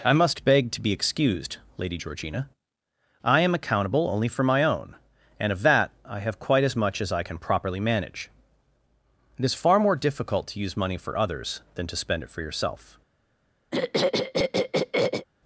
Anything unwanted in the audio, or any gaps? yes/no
yes